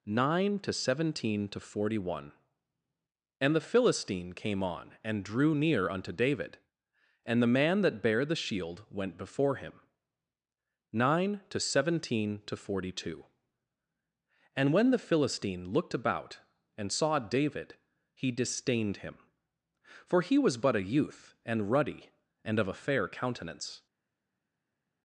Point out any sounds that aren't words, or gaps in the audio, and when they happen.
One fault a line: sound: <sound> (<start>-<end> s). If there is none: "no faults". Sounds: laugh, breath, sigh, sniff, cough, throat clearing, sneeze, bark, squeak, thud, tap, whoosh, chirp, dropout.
no faults